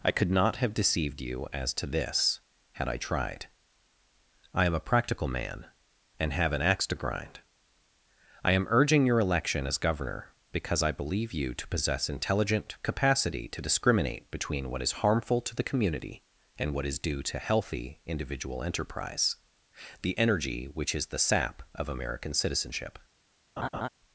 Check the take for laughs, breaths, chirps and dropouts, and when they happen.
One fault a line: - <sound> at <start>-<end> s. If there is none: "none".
- laugh at 23.6-23.9 s